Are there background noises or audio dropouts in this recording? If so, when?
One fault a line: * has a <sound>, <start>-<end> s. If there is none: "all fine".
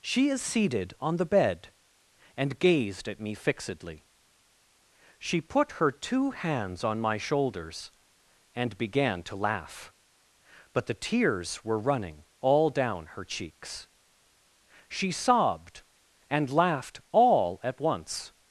all fine